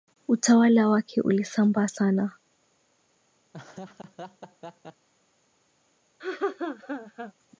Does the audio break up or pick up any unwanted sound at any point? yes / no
yes